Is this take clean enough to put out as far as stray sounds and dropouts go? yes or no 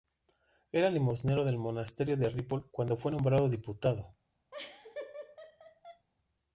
no